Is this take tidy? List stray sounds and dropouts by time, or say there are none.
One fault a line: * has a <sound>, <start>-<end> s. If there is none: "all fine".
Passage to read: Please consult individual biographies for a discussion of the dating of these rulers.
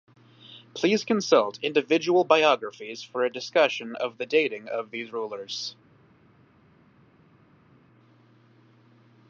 all fine